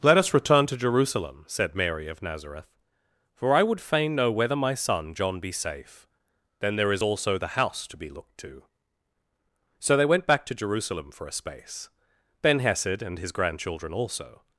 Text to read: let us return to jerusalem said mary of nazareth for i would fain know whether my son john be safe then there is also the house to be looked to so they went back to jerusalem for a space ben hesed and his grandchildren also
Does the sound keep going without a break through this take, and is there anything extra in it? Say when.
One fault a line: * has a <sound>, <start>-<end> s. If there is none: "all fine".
all fine